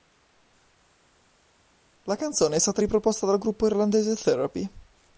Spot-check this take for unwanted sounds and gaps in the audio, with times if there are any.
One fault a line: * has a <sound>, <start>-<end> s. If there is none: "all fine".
all fine